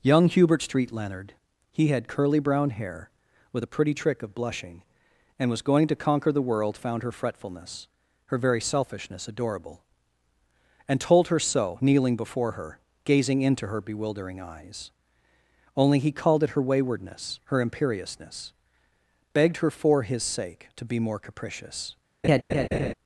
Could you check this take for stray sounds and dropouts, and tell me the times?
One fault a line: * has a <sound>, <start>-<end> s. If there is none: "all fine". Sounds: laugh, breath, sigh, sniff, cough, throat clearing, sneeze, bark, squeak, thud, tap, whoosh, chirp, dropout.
* has a laugh, 22.2-22.9 s